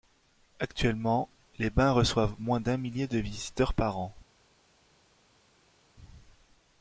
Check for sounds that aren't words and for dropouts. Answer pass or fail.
pass